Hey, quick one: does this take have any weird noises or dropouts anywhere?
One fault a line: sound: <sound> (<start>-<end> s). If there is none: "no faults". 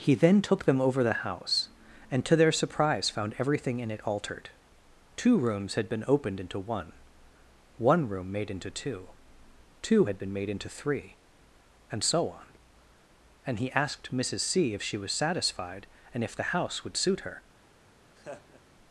sound: laugh (18.2-18.6 s)